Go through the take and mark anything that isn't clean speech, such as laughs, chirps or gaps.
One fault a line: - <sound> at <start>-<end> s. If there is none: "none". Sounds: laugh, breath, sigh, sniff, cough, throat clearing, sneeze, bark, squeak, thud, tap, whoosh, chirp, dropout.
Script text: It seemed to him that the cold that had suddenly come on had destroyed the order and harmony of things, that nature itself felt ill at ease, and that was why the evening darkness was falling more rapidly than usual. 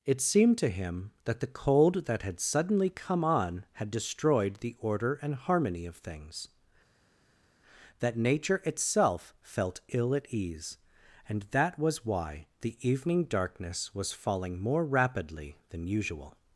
none